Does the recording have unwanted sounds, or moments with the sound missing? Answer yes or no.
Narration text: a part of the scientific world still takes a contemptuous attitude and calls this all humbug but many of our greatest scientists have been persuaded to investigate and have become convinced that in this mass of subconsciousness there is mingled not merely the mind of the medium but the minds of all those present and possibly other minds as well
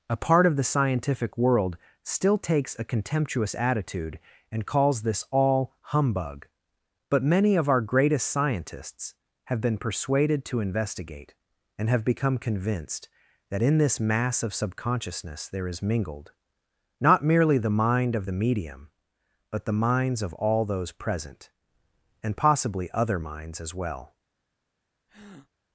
yes